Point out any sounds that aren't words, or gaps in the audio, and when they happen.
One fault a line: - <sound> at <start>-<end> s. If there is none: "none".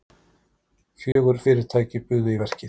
- dropout at 1.1-1.2 s